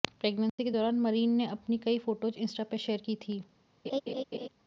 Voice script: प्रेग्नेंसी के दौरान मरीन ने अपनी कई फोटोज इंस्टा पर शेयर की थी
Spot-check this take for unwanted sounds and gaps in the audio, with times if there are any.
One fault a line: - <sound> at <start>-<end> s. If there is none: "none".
- dropout at 0.5-0.6 s
- laugh at 3.8-4.5 s